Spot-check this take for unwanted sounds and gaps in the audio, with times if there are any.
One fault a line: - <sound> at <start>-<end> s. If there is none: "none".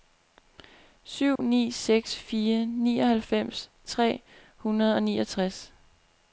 - dropout at 1.4-1.4 s